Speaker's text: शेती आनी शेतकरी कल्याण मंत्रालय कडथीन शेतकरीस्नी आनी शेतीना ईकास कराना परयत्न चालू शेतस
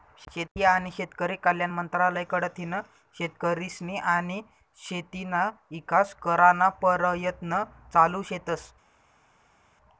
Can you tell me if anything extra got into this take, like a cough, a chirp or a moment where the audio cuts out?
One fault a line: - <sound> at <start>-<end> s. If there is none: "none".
none